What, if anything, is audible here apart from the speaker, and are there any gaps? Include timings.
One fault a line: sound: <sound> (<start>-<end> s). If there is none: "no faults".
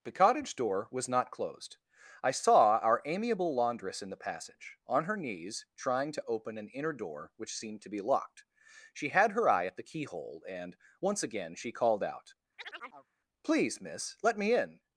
sound: chirp (12.6-13.1 s)